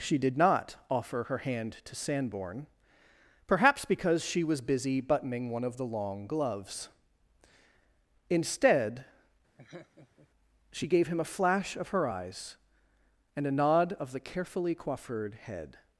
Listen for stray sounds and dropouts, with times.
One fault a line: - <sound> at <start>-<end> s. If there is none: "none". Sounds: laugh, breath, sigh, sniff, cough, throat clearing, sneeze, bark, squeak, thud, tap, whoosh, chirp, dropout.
- laugh at 9.6-10.3 s